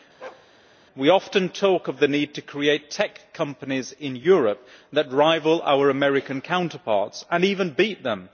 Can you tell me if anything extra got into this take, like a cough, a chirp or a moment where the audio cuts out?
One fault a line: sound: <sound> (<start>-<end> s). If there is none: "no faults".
sound: bark (0.2-0.5 s)